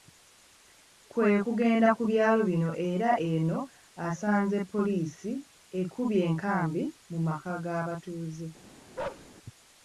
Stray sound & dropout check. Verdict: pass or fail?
fail